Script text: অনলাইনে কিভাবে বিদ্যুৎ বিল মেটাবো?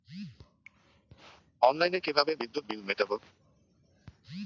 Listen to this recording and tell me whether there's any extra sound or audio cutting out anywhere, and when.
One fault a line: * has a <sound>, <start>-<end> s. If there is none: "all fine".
all fine